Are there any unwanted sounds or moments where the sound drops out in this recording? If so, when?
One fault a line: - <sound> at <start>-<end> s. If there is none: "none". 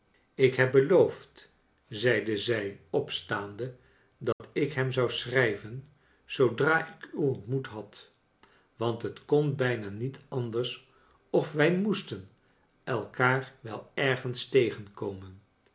- dropout at 4.3-4.4 s